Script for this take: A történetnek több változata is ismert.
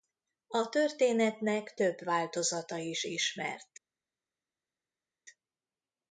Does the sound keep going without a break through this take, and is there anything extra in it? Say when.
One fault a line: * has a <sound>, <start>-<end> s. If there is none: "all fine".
all fine